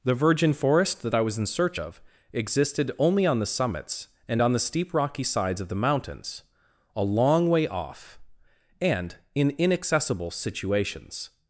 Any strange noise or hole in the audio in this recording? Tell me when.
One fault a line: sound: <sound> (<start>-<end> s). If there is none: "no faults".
no faults